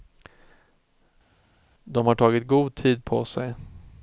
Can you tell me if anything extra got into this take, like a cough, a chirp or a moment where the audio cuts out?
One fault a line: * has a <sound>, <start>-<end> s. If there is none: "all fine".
all fine